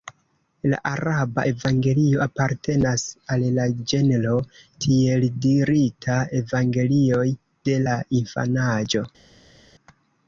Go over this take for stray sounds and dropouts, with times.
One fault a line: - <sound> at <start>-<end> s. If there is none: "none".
none